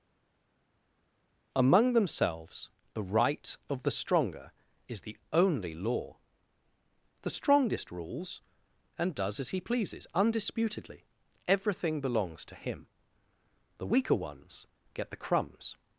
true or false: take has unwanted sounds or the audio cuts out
false